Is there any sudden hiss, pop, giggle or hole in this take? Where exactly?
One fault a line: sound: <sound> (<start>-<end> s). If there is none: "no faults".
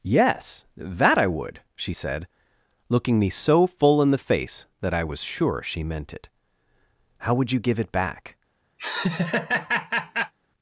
sound: laugh (8.8-10.3 s)